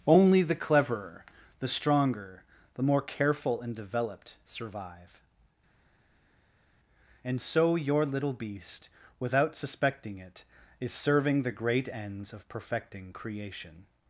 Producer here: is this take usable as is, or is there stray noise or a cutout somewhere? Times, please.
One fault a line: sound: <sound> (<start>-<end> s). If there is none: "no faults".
no faults